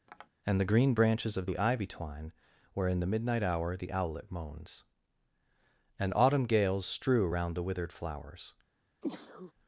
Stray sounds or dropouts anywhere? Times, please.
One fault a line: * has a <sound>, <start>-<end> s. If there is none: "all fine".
* has a tap, 0.1-0.3 s
* has a sneeze, 9.0-9.5 s